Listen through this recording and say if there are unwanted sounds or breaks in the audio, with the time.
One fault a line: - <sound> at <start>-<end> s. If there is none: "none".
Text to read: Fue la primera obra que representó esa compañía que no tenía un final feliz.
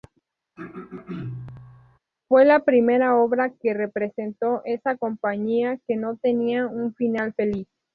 - throat clearing at 0.6-2.0 s